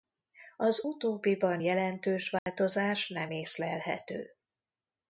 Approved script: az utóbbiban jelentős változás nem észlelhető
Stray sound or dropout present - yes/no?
yes